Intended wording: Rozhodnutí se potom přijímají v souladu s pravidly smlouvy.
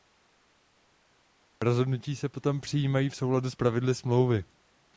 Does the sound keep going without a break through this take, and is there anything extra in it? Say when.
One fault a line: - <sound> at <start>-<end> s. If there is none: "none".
none